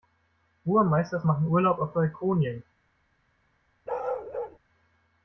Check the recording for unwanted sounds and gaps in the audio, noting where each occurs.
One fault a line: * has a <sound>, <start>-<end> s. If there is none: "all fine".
* has a bark, 3.9-4.6 s